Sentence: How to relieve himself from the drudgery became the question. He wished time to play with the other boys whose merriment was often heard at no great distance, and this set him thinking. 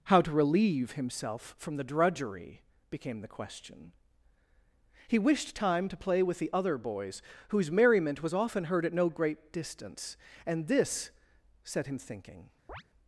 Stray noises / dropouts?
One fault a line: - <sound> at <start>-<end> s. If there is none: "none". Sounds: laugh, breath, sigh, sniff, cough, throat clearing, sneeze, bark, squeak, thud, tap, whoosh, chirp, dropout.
- chirp at 12.7-12.8 s